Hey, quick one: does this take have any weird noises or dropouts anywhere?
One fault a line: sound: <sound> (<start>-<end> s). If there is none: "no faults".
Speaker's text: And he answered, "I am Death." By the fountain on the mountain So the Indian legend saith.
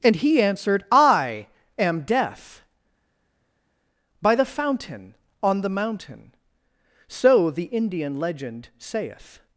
no faults